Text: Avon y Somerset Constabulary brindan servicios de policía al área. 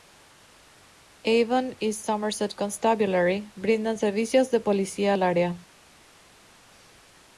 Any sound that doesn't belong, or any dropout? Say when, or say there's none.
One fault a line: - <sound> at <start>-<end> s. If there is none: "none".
none